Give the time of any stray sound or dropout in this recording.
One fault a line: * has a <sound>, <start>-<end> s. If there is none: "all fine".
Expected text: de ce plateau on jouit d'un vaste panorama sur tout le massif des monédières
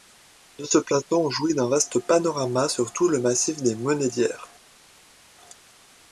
all fine